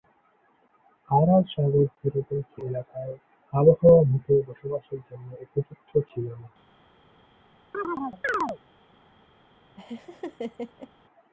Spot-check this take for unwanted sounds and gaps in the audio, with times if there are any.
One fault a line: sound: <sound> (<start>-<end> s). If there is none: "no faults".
sound: chirp (7.7-8.6 s)
sound: laugh (9.8-10.9 s)